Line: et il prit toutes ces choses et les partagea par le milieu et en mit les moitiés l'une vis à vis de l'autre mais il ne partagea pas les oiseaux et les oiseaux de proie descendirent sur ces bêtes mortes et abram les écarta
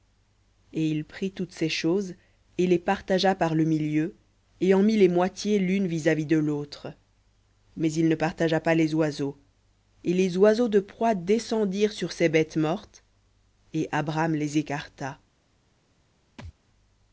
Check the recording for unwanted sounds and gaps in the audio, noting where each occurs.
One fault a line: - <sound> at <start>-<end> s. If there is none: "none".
- thud at 16.4-16.5 s